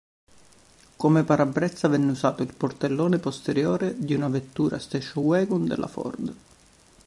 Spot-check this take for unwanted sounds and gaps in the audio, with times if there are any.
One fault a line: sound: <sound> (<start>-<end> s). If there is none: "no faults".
no faults